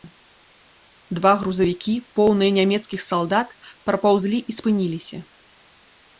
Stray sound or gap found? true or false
false